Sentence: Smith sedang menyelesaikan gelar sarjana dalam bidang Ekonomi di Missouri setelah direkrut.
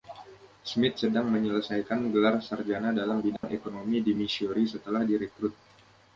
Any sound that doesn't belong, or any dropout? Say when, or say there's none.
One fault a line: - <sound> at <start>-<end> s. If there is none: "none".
- dropout at 3.4-3.4 s